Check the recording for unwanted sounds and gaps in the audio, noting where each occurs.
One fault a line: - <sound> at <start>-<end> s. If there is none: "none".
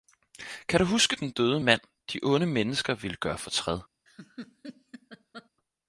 - laugh at 4.1-5.5 s